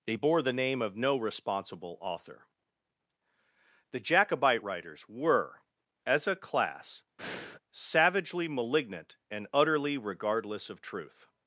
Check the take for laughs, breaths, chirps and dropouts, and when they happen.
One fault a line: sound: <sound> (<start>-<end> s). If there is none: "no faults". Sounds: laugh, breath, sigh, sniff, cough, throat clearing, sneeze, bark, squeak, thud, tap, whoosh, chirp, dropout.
sound: breath (7.2-7.6 s)